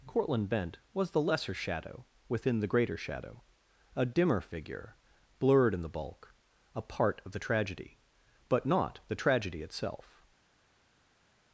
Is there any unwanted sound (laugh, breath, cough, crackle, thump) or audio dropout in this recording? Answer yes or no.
no